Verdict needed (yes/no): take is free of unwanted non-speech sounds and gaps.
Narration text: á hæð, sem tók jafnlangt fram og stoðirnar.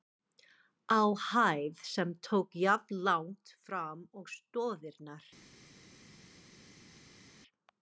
yes